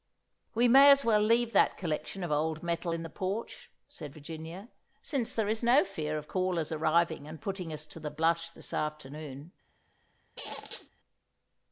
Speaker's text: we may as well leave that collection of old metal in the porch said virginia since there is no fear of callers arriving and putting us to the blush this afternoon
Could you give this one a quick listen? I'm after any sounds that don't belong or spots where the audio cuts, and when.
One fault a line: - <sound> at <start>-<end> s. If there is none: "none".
- squeak at 10.4-10.9 s